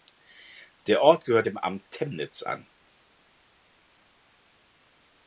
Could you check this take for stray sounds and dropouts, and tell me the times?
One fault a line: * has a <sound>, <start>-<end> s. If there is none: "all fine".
all fine